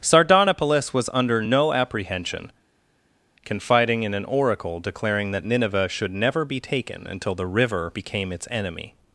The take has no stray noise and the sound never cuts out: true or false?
true